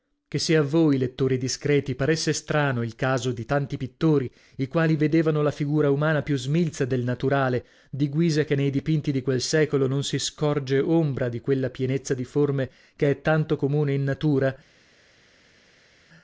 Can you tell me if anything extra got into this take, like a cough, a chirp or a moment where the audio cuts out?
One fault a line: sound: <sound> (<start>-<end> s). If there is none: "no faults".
no faults